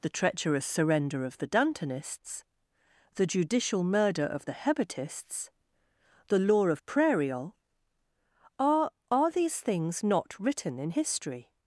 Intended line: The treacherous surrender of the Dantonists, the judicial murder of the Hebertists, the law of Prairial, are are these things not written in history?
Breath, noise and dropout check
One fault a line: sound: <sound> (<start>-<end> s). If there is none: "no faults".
no faults